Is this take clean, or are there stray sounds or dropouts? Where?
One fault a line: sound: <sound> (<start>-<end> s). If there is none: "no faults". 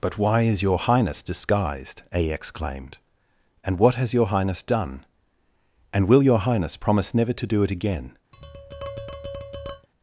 sound: tap (8.3-9.9 s)